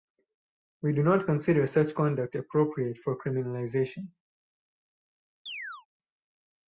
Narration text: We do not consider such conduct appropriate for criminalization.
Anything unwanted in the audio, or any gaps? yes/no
yes